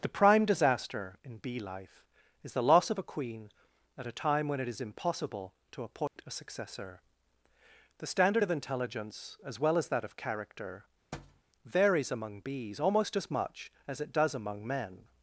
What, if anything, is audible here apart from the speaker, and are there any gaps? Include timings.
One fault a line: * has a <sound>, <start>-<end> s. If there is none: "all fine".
* has a dropout, 6.1-6.2 s
* has a thud, 11.1-11.4 s